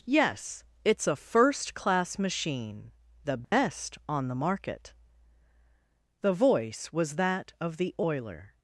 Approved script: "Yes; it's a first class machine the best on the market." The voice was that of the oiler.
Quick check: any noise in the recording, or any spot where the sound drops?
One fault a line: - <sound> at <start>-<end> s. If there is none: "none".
- dropout at 3.4-3.5 s